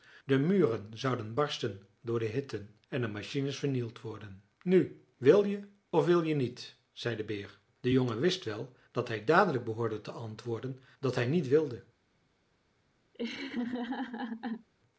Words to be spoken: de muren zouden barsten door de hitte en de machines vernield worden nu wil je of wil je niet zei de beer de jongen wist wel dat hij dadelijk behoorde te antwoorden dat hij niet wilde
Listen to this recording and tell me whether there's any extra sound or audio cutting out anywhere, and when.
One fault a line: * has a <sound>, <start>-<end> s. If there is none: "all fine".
* has a laugh, 13.1-14.7 s